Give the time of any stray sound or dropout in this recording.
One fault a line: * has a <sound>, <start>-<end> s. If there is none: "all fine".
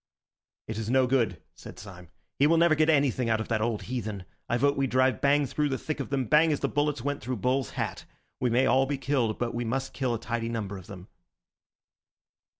all fine